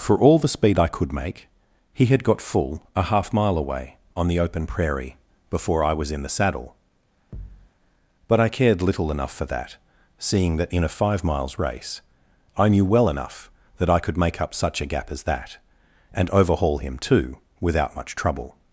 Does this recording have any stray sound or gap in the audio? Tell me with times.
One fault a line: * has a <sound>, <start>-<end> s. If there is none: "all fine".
* has a thud, 7.3-7.7 s